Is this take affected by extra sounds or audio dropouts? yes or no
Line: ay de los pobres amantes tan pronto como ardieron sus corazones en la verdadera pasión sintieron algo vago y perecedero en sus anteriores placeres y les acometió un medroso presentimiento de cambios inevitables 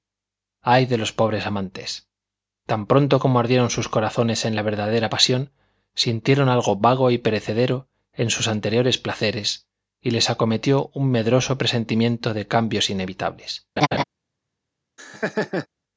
yes